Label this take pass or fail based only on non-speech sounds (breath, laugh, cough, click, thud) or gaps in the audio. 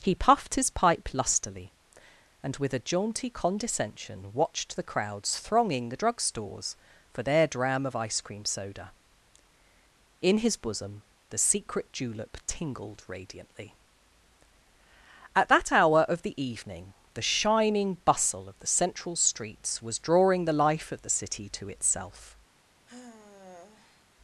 fail